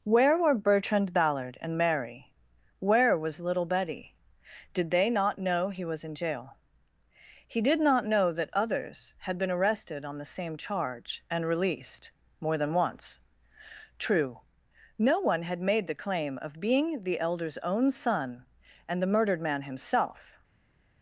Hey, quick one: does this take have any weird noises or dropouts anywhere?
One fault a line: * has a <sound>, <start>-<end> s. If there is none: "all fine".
all fine